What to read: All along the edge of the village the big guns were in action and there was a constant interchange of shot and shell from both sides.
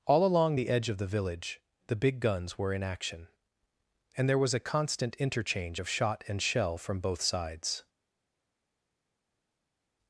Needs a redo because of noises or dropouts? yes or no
no